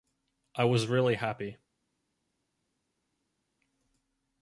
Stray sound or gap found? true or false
false